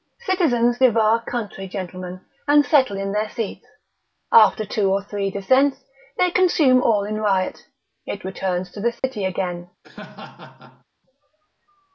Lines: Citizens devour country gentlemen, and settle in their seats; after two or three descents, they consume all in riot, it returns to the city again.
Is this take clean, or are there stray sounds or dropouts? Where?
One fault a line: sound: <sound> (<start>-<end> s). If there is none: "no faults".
sound: dropout (9.0-9.0 s)
sound: laugh (9.8-10.8 s)